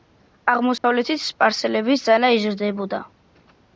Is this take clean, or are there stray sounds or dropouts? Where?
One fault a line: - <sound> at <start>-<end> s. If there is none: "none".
- dropout at 0.8-0.8 s